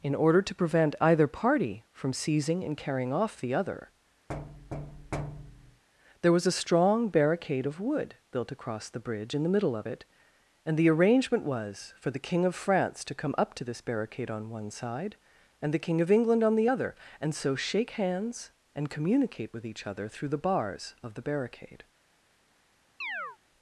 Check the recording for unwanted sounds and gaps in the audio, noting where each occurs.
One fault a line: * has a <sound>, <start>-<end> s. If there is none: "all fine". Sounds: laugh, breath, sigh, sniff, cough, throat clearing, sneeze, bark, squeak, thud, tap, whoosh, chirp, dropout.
* has a thud, 4.3-5.8 s
* has a chirp, 23.0-23.4 s